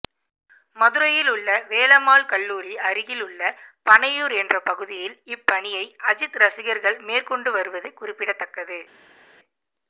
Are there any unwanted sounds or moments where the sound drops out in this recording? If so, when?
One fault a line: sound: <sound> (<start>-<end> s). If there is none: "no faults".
no faults